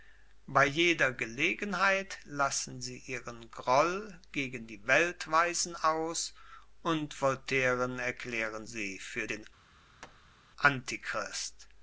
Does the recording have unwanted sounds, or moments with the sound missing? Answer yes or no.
yes